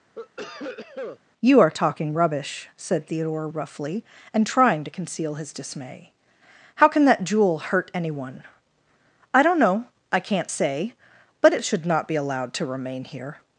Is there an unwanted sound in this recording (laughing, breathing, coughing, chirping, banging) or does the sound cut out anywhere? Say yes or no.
yes